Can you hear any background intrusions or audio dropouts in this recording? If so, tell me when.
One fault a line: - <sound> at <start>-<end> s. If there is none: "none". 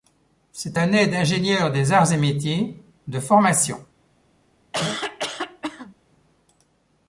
- cough at 4.7-5.9 s